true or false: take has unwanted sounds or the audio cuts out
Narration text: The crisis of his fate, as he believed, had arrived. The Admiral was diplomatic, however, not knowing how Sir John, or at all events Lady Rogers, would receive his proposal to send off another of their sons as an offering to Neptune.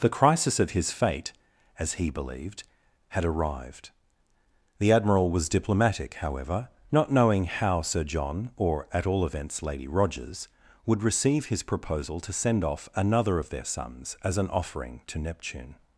false